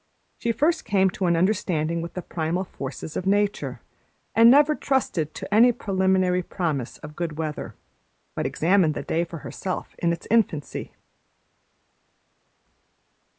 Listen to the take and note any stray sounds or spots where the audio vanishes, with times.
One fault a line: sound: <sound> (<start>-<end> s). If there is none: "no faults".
no faults